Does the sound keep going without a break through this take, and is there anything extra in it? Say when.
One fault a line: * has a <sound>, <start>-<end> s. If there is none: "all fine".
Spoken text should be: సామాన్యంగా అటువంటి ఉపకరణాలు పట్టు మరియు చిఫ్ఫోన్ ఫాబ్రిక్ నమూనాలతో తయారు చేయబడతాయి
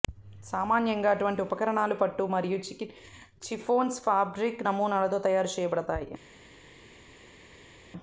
all fine